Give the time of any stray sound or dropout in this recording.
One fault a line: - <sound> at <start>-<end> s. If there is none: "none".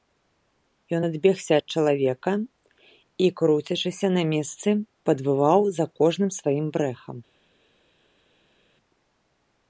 none